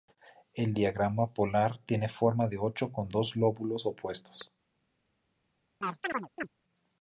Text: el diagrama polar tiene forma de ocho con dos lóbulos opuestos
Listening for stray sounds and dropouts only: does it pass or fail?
fail